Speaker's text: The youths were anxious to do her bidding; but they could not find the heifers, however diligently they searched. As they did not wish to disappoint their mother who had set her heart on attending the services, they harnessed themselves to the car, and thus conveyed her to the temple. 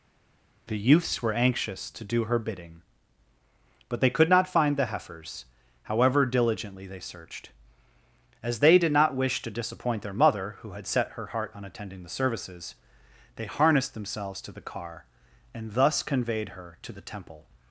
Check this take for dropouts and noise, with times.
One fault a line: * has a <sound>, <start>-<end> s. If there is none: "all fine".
all fine